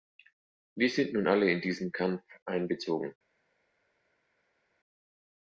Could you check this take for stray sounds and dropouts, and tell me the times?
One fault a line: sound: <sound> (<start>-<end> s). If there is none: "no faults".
no faults